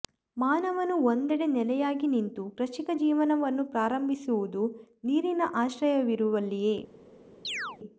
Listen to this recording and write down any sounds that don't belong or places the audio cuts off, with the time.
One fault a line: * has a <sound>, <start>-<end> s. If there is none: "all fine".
* has a chirp, 7.4-7.8 s